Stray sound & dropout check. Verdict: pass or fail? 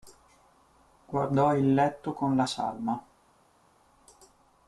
pass